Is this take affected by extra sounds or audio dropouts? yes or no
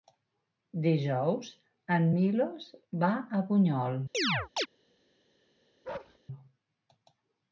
yes